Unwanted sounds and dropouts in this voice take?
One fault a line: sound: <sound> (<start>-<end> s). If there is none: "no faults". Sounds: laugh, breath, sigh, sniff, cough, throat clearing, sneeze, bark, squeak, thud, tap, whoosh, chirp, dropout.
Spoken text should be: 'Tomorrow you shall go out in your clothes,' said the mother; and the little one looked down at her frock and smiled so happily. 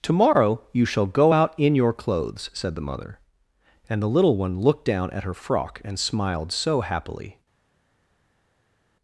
no faults